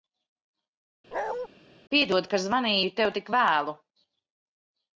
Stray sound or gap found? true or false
true